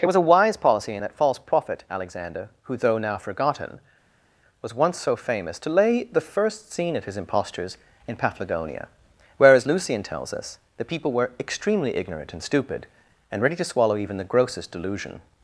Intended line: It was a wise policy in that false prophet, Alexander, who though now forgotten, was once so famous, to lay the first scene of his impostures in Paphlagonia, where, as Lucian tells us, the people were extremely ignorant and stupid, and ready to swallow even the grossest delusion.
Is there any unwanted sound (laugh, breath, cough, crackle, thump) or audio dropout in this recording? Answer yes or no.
no